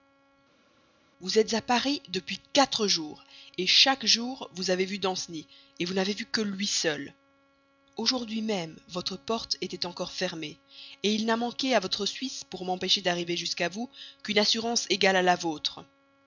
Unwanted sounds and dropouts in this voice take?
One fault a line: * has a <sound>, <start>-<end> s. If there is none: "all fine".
all fine